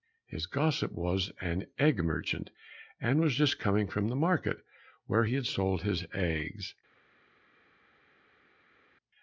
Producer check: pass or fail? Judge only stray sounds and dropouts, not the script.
pass